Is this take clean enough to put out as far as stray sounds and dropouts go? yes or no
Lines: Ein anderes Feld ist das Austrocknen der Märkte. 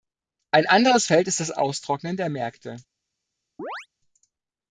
no